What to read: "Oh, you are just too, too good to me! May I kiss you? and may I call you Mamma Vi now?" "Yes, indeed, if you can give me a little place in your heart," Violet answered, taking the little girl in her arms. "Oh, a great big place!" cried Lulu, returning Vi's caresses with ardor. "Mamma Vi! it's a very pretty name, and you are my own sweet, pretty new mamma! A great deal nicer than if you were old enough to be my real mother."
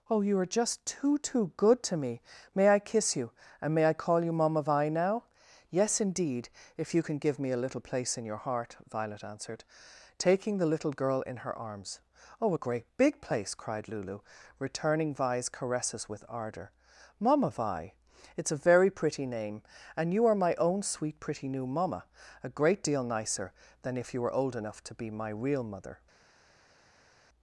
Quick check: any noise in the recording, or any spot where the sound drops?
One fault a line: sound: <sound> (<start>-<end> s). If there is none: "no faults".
no faults